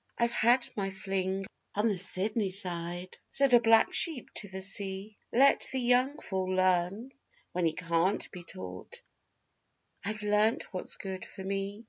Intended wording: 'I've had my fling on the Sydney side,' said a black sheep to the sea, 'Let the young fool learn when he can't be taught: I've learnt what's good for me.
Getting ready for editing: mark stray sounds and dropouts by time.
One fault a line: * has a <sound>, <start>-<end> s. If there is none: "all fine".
all fine